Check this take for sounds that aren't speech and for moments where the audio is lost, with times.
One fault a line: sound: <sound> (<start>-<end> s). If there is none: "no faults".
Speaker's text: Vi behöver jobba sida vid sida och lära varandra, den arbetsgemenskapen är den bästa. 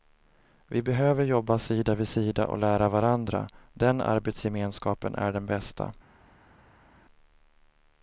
no faults